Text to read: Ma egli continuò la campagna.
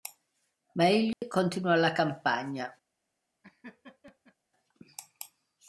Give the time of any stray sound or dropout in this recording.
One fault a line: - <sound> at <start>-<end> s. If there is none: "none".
- dropout at 1.1-1.2 s
- laugh at 3.4-4.4 s